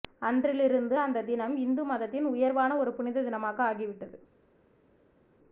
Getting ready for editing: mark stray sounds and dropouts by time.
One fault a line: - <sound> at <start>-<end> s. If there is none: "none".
none